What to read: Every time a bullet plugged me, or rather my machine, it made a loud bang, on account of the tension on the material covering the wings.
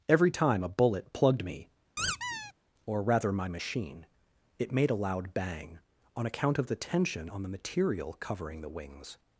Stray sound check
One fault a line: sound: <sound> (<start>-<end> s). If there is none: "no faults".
sound: squeak (2.0-2.5 s)